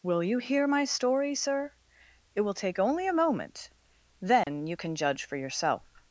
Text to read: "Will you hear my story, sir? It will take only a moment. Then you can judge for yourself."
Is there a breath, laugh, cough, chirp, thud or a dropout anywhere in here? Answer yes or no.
yes